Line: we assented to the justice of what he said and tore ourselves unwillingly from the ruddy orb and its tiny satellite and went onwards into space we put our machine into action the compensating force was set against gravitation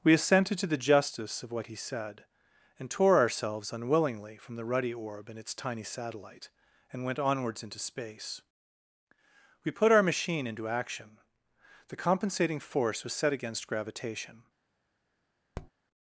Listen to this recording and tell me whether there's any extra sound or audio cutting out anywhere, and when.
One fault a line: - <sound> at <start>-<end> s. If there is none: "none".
- tap at 15.5-15.7 s